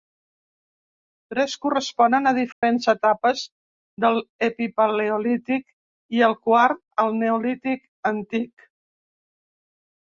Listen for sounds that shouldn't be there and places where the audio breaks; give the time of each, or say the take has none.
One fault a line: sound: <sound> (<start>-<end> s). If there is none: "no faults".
sound: dropout (2.5-2.6 s)